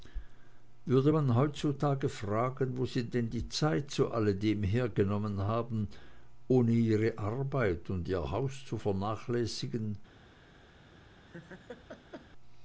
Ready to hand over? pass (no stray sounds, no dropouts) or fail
fail